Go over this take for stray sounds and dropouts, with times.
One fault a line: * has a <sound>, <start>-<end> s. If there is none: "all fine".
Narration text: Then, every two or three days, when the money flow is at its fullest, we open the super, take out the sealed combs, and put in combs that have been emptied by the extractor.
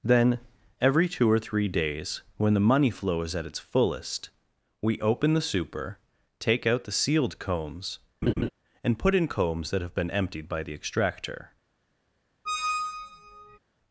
* has a laugh, 8.2-8.5 s
* has a squeak, 12.4-13.6 s